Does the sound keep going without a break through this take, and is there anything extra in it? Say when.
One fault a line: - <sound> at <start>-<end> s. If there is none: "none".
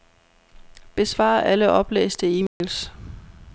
- dropout at 2.5-2.6 s